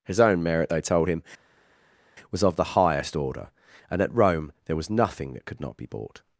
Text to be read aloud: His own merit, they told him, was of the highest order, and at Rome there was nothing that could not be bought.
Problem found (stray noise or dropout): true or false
false